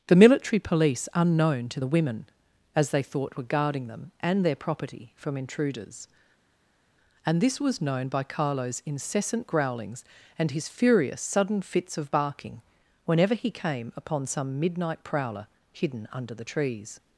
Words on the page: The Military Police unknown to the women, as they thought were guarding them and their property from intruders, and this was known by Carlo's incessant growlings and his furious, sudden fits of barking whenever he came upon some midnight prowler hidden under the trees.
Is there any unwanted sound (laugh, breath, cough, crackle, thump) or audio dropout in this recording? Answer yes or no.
no